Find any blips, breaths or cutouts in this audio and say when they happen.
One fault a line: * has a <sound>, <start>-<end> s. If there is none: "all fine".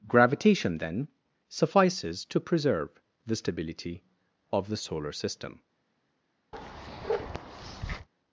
* has a bark, 6.5-8.1 s